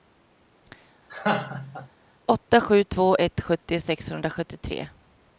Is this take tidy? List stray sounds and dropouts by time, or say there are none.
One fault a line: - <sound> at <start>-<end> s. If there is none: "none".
- laugh at 1.1-1.9 s